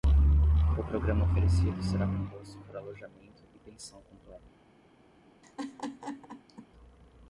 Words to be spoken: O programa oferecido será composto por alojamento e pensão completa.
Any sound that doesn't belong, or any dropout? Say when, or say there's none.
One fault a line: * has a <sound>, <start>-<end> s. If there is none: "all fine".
* has a laugh, 5.4-6.7 s